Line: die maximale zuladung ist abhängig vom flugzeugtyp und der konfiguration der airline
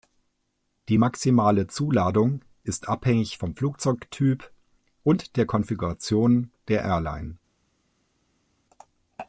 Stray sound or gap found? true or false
false